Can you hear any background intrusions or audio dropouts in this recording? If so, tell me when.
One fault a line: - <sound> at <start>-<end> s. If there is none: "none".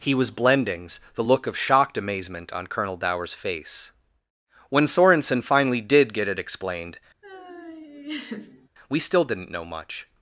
- laugh at 7.2-8.7 s